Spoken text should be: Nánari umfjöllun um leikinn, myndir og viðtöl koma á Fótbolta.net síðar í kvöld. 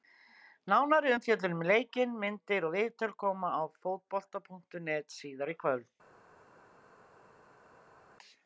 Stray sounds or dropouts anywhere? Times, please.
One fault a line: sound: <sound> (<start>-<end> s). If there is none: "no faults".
no faults